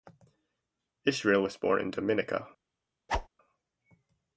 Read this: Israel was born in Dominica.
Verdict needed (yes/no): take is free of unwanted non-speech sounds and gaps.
no